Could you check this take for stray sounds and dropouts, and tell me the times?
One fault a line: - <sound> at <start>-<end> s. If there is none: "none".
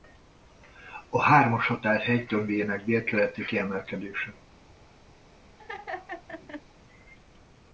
- laugh at 5.6-6.6 s